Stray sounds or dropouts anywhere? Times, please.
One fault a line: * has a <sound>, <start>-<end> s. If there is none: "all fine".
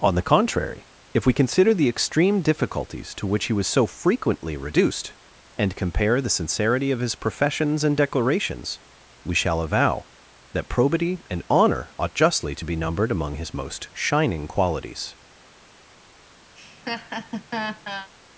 * has a laugh, 16.5-18.1 s